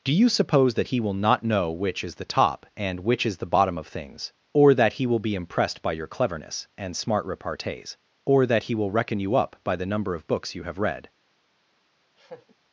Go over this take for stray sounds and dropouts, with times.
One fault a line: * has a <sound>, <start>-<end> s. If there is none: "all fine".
* has a laugh, 12.2-12.5 s